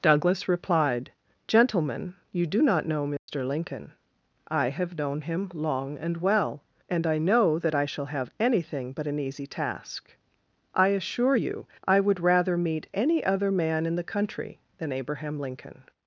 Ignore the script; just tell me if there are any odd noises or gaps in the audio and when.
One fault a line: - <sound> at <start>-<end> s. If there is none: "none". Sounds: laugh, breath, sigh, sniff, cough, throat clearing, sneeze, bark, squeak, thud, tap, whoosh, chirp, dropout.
- dropout at 3.2-3.3 s